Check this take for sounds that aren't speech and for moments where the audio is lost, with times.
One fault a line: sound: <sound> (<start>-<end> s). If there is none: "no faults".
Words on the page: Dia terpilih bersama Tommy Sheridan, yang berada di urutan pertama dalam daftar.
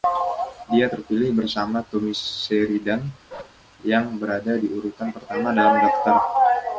sound: bark (3.3-3.6 s)